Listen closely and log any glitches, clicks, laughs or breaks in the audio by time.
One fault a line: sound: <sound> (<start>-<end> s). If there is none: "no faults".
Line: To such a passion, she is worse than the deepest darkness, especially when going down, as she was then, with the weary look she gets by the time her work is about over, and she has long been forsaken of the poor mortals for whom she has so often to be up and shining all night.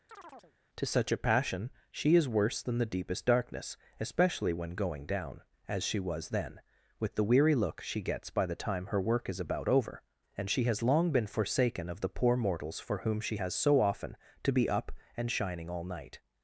sound: chirp (0.1-0.5 s)